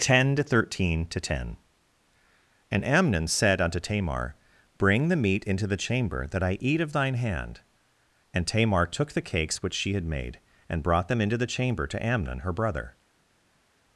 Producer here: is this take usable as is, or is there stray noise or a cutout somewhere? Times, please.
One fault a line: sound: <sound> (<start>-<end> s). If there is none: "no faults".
no faults